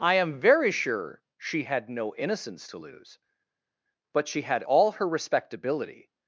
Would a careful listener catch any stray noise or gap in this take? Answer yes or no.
no